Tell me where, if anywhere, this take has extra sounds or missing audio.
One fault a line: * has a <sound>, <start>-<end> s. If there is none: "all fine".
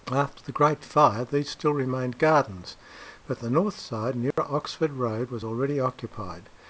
* has a dropout, 4.3-4.4 s